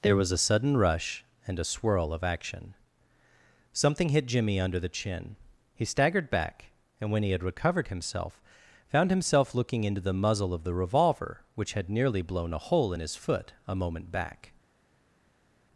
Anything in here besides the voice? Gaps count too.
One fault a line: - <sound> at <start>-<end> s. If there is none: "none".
none